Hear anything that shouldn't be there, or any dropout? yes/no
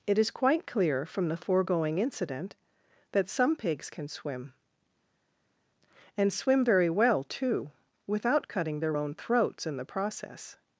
no